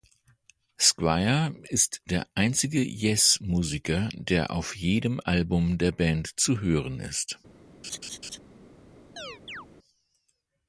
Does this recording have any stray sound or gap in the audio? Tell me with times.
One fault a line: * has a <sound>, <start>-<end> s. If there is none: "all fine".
* has a laugh, 7.8-8.4 s
* has a chirp, 9.2-9.7 s